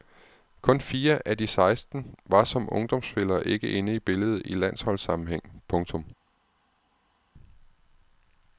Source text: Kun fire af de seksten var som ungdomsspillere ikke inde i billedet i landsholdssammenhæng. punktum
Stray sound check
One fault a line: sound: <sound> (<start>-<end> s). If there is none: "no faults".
no faults